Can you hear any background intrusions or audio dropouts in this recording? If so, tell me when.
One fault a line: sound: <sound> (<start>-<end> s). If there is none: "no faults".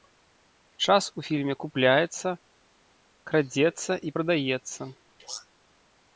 no faults